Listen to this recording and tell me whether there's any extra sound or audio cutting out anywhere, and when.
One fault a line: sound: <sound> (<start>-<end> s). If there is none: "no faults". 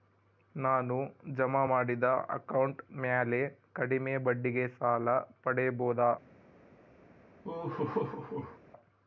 sound: laugh (7.4-8.6 s)